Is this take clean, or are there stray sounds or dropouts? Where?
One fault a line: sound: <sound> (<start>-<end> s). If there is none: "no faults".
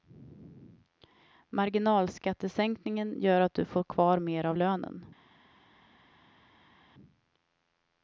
no faults